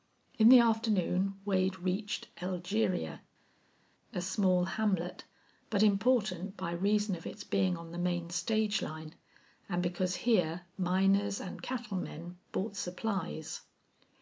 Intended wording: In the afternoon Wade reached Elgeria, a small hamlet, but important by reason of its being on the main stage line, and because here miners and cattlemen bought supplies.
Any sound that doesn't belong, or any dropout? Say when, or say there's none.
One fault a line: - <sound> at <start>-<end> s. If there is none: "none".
none